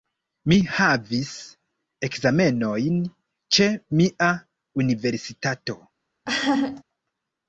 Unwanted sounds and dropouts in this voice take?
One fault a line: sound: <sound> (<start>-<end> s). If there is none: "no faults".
sound: laugh (6.3-6.8 s)